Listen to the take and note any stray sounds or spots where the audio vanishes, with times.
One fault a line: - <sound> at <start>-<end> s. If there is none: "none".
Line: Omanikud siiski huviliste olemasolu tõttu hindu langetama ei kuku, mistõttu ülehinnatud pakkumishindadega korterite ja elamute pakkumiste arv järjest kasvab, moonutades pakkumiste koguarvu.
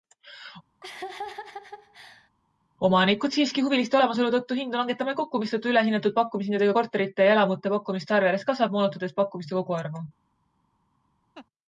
- laugh at 0.8-2.3 s
- laugh at 11.3-11.5 s